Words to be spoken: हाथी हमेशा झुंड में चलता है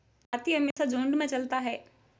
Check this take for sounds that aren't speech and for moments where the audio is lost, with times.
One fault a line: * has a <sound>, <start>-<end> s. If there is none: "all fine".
* has a dropout, 0.7-0.8 s